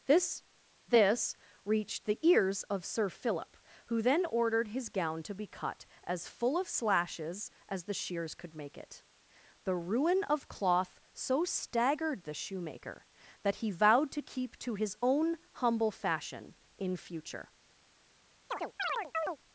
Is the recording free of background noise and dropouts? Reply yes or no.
no